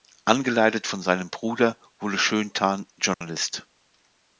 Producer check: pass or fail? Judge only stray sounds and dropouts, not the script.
fail